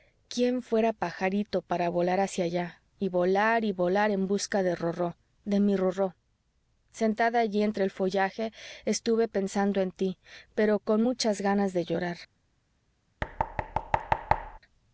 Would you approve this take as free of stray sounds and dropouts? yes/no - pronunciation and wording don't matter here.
no